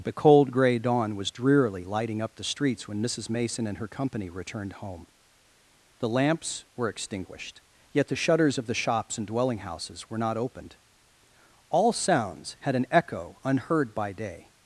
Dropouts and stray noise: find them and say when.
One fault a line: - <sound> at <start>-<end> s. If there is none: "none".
none